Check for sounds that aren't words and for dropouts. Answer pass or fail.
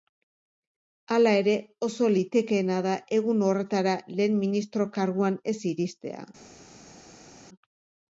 pass